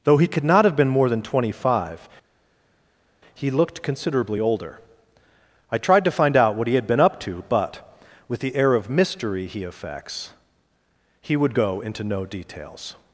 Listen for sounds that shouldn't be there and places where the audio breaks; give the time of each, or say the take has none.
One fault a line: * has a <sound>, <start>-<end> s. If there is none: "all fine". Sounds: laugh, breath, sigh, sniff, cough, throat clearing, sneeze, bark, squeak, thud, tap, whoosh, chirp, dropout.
all fine